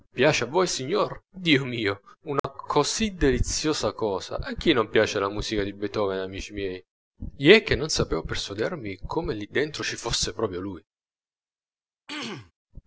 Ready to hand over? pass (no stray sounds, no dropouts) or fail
fail